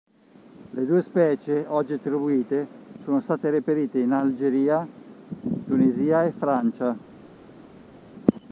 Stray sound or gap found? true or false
false